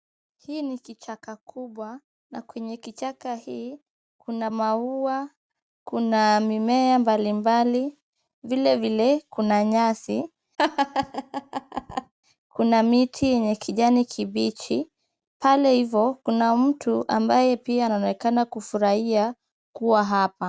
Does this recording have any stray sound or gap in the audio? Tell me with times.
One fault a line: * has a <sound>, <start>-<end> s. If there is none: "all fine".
* has a laugh, 10.6-12.1 s